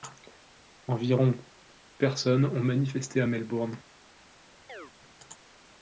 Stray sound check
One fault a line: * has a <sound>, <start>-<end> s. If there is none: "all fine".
* has a chirp, 4.7-4.9 s